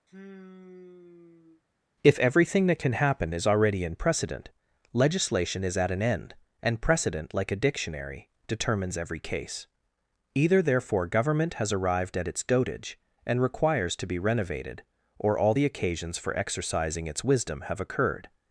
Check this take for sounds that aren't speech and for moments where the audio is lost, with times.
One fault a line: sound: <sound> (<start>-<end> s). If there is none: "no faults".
sound: sigh (0.1-1.6 s)